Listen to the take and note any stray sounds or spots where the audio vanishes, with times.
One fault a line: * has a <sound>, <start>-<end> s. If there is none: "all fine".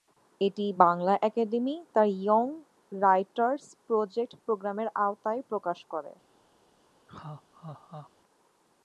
* has a laugh, 7.1-8.1 s